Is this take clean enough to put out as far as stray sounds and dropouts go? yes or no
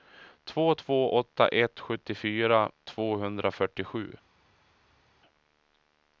yes